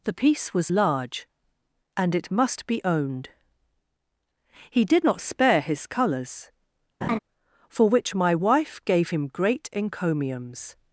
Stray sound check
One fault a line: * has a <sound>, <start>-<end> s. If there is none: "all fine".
* has a laugh, 7.0-7.2 s